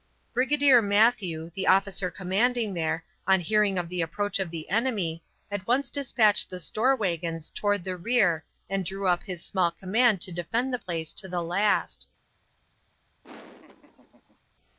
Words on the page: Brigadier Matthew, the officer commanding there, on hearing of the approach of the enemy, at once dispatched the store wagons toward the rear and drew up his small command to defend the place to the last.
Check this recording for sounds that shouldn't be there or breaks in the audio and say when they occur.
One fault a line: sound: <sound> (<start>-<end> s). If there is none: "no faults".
sound: laugh (13.2-14.4 s)